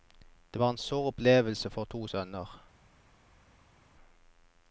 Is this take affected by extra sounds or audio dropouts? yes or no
no